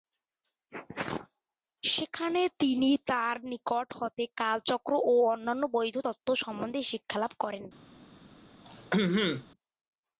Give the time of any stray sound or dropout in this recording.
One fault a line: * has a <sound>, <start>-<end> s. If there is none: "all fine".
* has a throat clearing, 8.7-9.5 s